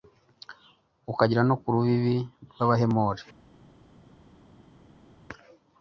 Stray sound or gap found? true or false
false